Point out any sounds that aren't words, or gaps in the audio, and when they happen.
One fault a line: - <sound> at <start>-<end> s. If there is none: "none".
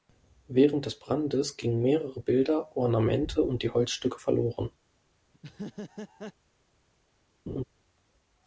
- laugh at 5.3-6.3 s
- laugh at 7.5-7.6 s